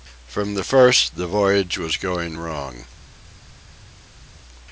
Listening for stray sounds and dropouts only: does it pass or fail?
pass